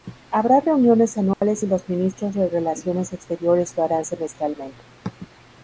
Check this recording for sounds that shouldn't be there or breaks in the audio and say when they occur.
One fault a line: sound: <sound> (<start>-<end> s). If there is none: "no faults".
sound: dropout (1.3-1.4 s)